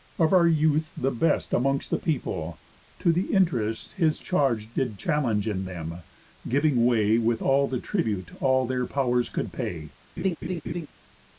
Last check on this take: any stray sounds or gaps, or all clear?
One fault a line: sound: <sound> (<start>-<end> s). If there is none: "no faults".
sound: laugh (10.2-10.9 s)